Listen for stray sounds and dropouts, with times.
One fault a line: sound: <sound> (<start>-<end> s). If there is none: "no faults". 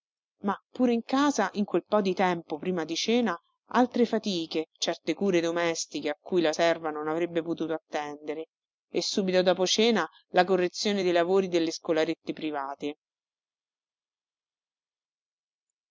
no faults